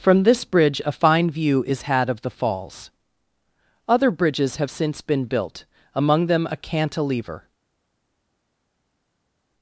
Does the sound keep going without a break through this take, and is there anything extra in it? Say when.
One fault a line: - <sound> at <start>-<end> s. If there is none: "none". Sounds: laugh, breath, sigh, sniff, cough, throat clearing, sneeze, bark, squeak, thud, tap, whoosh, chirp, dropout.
none